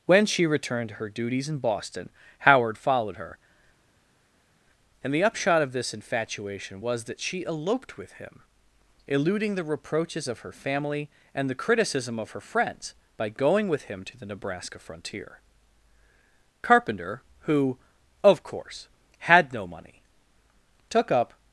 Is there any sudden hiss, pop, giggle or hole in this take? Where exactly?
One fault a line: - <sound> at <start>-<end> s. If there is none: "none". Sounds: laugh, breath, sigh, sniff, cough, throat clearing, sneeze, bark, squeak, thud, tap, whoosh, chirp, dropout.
none